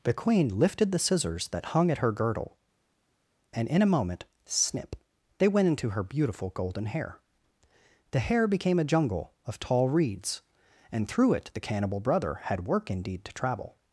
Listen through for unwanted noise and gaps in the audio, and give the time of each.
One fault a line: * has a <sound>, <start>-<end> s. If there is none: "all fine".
all fine